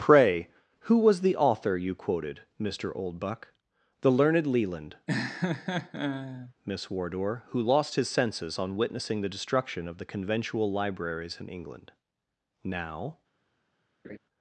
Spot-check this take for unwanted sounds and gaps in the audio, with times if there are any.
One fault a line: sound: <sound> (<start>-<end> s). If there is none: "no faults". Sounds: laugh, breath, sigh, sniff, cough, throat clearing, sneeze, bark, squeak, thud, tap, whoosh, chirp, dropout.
sound: laugh (5.1-6.5 s)
sound: laugh (14.0-14.2 s)